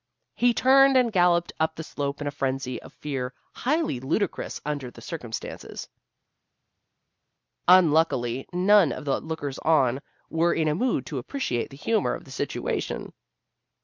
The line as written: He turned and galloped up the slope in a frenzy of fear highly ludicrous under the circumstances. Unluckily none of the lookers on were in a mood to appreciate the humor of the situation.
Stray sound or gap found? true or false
false